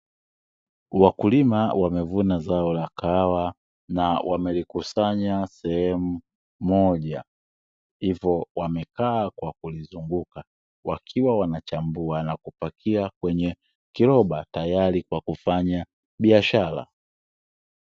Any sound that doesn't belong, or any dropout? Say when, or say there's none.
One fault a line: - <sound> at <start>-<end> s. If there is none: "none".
none